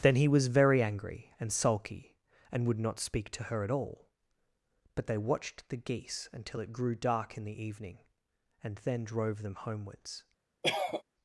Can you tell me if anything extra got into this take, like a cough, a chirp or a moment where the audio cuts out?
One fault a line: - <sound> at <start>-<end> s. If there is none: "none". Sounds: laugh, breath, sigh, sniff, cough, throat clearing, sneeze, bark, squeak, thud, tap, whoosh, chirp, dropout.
- cough at 10.6-11.0 s